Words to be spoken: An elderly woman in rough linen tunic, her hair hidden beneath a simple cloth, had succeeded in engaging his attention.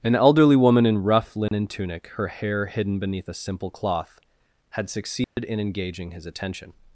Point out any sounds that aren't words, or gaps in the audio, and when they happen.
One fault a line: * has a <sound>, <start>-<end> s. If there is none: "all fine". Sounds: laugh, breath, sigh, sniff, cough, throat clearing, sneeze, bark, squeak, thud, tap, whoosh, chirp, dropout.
* has a dropout, 1.5-1.5 s
* has a dropout, 5.2-5.4 s